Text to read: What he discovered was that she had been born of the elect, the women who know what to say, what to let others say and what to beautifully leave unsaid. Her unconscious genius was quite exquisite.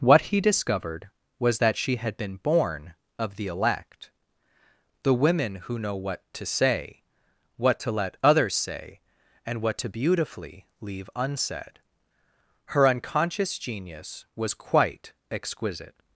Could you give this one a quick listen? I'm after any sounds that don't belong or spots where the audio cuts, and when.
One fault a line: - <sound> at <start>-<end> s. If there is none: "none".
none